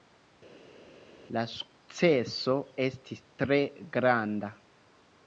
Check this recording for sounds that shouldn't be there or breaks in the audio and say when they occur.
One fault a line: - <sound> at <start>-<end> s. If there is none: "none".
none